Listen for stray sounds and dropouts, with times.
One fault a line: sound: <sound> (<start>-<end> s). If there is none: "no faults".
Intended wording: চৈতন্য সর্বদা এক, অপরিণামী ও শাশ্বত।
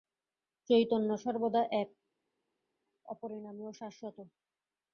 no faults